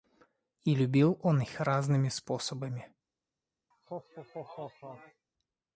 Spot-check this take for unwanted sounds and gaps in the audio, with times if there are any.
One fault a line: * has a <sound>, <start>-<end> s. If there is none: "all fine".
* has a laugh, 3.7-5.3 s